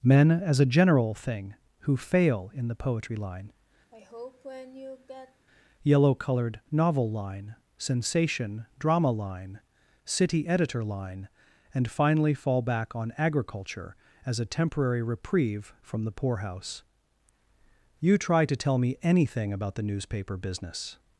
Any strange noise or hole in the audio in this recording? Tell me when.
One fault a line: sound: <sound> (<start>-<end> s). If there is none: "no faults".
sound: sigh (3.9-5.5 s)